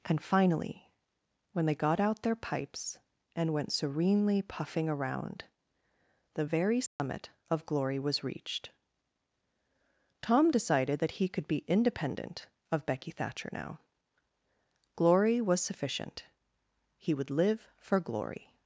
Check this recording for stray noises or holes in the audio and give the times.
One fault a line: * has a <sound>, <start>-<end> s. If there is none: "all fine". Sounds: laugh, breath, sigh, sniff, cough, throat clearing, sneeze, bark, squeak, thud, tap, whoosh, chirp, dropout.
* has a dropout, 6.9-7.0 s